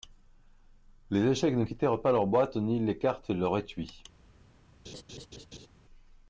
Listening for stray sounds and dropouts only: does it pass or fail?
fail